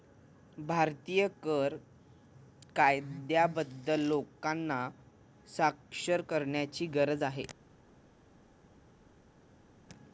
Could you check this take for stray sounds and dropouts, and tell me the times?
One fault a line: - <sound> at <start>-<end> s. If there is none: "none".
none